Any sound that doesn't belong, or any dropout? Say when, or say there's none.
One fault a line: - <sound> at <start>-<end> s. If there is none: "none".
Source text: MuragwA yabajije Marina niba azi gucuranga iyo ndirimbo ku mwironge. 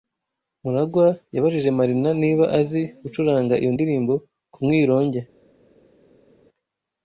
none